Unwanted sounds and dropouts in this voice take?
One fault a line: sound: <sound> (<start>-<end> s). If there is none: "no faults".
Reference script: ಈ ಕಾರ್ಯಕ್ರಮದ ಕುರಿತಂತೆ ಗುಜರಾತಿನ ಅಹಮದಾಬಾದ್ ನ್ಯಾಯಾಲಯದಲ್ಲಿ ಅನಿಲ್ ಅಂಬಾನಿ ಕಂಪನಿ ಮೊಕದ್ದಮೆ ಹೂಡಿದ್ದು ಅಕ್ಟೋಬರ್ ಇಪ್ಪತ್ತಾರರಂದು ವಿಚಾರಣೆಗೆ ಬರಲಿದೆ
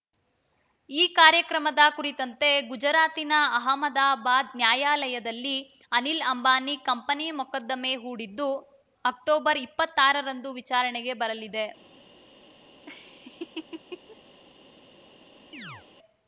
sound: laugh (12.9-14.2 s)
sound: chirp (15.5-15.9 s)